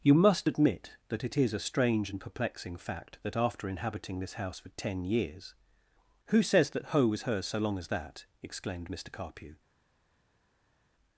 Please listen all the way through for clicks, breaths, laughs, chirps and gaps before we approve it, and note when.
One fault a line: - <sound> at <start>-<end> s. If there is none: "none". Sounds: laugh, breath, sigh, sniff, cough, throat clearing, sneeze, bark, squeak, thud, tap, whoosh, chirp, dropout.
none